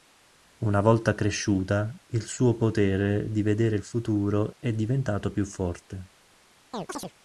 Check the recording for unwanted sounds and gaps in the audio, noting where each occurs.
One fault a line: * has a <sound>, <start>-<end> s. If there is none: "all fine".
* has a chirp, 6.7-7.1 s